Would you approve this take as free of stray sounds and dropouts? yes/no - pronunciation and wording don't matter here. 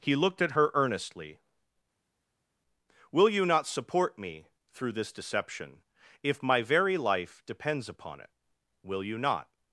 yes